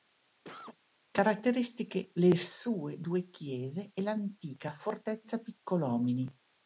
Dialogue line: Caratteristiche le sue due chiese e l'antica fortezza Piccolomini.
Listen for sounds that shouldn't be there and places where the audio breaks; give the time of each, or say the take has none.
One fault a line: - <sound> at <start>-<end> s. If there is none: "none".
- cough at 0.4-0.8 s